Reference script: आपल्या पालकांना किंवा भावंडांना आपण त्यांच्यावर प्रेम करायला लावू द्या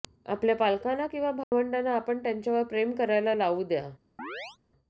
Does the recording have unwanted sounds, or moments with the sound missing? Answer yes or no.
yes